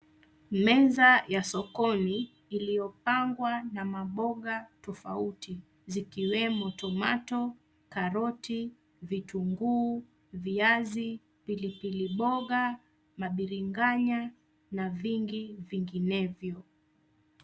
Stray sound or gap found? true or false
false